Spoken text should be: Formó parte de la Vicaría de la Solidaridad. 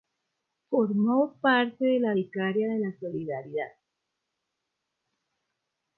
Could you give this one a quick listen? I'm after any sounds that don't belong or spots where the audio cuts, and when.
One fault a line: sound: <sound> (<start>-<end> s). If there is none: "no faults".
no faults